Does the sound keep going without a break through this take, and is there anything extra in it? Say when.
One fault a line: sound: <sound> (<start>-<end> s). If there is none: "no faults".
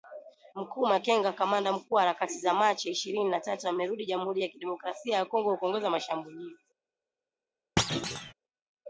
sound: thud (7.8-8.3 s)